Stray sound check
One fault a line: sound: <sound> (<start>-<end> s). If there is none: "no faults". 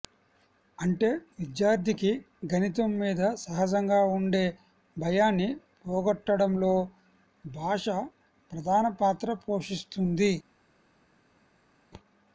no faults